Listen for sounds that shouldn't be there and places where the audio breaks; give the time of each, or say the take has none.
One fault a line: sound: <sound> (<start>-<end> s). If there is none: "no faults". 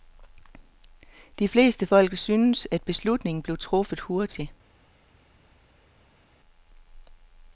no faults